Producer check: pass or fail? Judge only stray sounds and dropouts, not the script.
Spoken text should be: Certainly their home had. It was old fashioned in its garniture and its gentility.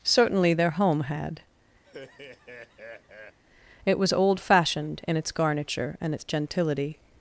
fail